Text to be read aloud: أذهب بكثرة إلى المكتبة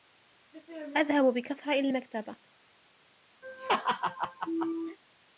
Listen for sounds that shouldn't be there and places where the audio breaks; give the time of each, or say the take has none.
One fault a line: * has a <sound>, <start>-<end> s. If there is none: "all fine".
* has a laugh, 3.4-5.0 s